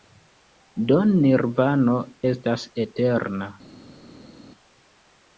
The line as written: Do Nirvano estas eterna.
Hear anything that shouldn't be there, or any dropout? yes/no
no